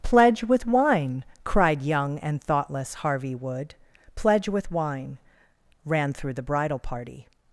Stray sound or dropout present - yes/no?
no